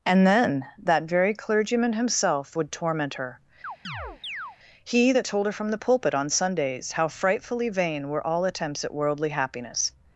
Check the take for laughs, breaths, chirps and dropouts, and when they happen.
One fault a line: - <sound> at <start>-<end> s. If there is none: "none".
- chirp at 3.6-4.6 s